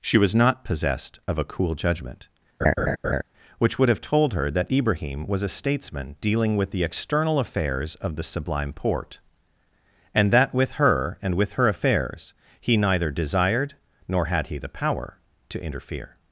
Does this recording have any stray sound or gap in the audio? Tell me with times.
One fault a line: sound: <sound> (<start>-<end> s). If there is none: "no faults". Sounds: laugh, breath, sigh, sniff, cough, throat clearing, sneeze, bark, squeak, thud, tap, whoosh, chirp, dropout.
sound: laugh (2.6-3.2 s)